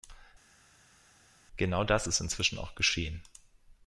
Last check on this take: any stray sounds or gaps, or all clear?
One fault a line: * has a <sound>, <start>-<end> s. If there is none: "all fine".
all fine